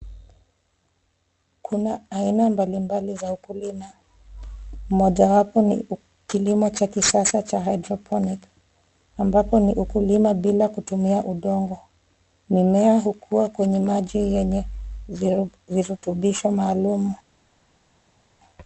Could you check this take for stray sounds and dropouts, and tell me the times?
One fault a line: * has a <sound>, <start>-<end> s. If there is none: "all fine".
all fine